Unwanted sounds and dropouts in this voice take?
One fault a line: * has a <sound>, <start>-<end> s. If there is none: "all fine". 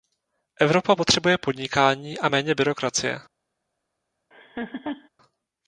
* has a laugh, 4.3-5.1 s